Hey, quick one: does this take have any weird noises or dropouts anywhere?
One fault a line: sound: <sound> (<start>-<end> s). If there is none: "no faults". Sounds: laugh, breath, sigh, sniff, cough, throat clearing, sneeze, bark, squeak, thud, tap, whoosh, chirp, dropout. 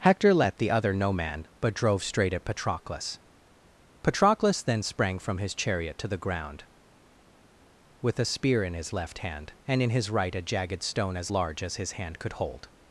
no faults